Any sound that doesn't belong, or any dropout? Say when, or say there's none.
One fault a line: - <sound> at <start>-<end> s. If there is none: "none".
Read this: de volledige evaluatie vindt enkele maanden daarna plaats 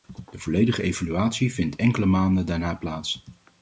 none